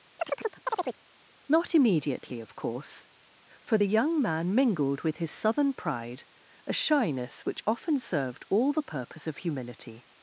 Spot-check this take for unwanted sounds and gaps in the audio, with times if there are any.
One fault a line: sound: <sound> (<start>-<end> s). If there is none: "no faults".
sound: chirp (0.2-1.0 s)